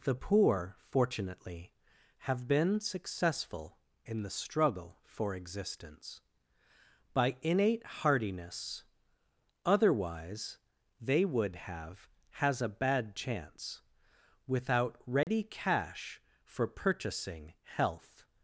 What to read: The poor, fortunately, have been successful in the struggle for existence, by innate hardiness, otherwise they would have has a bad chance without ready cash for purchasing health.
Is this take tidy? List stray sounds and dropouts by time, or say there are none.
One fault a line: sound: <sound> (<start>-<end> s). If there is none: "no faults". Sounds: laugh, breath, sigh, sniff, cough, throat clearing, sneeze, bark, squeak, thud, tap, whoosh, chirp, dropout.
sound: dropout (15.2-15.3 s)